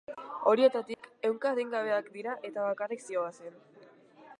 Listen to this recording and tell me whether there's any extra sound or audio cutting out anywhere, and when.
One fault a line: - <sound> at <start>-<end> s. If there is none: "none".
- dropout at 0.9-1.0 s